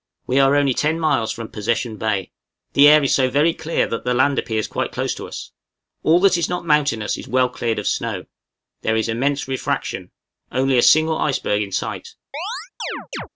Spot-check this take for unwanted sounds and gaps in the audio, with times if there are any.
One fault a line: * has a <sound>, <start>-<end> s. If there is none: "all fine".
* has a chirp, 12.3-13.3 s